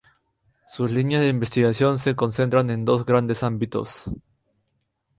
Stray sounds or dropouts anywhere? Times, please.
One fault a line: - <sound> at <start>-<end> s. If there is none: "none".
none